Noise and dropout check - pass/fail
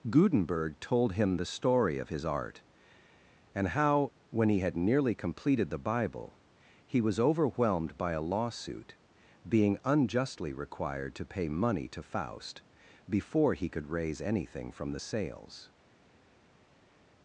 pass